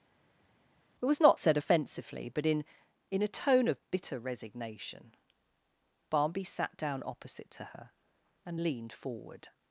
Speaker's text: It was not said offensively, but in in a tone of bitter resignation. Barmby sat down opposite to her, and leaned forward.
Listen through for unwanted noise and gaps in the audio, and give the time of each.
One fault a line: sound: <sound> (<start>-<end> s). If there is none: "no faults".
no faults